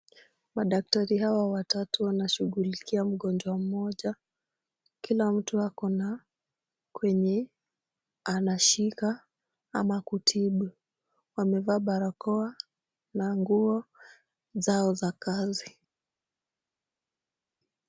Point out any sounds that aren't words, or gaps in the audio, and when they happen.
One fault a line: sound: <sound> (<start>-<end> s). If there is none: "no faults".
no faults